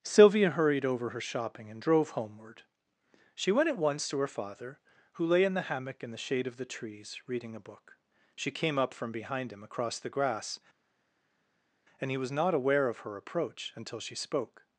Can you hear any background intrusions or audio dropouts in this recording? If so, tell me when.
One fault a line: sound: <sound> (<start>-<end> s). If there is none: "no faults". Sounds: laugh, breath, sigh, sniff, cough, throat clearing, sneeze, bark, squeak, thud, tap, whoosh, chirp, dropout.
no faults